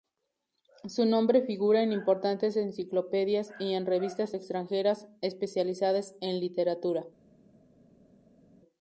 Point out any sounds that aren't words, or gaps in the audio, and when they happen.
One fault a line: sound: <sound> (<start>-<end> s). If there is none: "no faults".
no faults